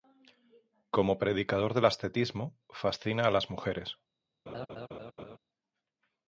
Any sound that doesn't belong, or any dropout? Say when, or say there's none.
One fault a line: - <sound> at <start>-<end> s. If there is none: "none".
- laugh at 4.5-5.4 s